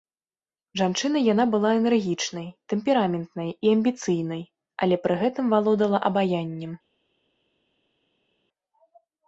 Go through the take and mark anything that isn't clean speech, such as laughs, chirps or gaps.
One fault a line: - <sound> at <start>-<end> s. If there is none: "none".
none